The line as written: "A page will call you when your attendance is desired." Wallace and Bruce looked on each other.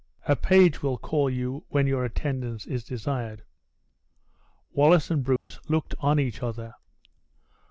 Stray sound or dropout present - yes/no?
yes